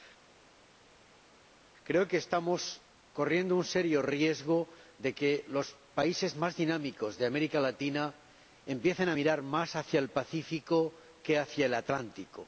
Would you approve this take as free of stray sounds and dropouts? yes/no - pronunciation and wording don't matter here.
yes